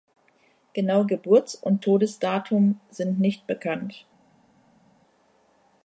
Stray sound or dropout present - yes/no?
no